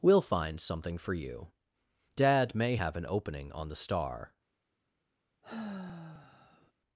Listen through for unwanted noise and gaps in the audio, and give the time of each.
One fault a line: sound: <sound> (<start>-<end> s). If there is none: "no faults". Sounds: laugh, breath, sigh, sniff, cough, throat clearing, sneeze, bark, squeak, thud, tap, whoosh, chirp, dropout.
sound: sigh (5.4-6.7 s)